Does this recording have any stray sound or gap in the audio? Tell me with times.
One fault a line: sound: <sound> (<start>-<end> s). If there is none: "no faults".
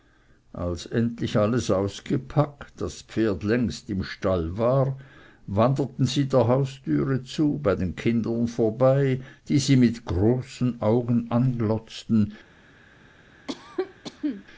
sound: cough (13.5-14.4 s)